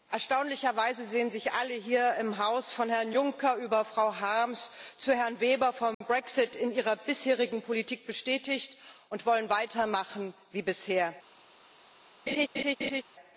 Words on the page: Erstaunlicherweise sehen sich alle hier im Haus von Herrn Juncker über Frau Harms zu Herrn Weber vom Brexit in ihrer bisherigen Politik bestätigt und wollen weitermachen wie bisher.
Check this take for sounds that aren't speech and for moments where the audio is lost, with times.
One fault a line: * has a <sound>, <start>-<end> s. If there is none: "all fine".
* has a dropout, 5.9-6.0 s
* has a laugh, 12.3-13.0 s